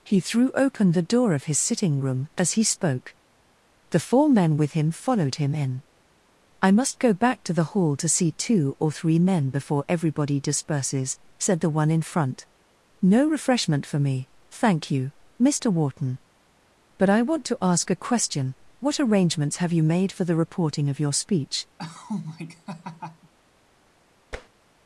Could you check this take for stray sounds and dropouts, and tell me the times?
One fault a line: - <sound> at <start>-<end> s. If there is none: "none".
- laugh at 21.8-23.3 s
- tap at 24.3-24.5 s